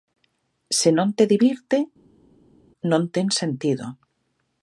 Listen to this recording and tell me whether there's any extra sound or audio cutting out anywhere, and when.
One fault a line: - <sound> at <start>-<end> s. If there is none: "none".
none